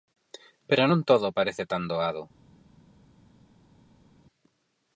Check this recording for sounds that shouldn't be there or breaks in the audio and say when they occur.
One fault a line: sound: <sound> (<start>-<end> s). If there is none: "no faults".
no faults